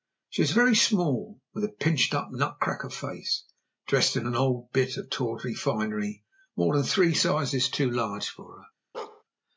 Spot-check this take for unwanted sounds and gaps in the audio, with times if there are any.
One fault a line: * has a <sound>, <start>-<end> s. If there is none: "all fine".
* has a bark, 8.9-9.2 s